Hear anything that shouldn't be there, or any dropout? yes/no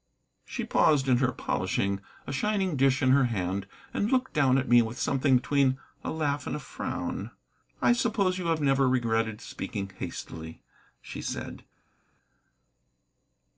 no